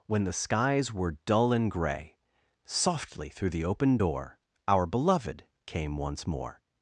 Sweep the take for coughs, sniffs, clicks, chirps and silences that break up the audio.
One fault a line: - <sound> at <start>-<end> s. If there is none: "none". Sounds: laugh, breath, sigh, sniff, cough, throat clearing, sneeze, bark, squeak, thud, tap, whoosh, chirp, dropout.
none